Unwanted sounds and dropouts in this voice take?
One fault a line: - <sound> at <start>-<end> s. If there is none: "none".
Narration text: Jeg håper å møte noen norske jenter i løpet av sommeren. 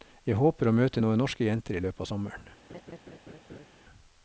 - laugh at 2.7-3.7 s